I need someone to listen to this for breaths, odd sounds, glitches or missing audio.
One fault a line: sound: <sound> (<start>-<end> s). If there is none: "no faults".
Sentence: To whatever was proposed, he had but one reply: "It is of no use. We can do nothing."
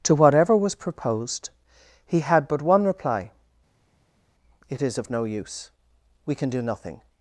no faults